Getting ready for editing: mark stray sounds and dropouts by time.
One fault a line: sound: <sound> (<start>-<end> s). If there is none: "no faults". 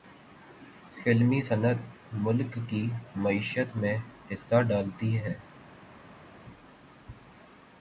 no faults